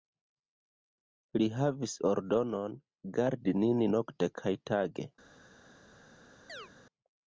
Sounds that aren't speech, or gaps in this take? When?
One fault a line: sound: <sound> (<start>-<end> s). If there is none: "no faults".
sound: chirp (6.5-6.7 s)